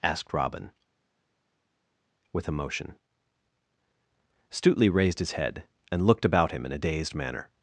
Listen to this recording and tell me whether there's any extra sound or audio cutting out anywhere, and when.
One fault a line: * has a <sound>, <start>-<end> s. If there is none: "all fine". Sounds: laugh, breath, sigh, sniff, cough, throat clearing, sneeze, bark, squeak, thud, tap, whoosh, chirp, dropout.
all fine